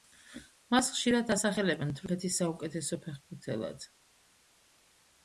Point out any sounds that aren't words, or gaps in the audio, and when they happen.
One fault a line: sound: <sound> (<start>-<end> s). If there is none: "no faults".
no faults